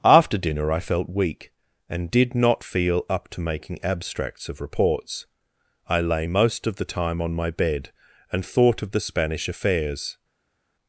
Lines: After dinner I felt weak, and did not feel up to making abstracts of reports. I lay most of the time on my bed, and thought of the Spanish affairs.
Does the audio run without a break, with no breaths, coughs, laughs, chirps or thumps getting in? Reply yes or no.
yes